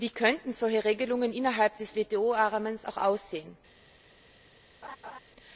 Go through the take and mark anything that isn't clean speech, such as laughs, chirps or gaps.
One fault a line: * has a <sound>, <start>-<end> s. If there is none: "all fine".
* has a laugh, 4.8-5.2 s